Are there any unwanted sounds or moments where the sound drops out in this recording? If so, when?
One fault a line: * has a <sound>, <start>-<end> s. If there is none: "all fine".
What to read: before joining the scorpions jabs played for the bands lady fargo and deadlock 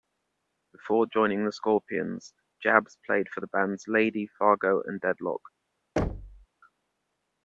* has a thud, 6.0-6.5 s